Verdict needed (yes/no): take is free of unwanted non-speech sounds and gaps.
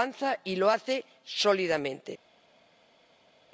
yes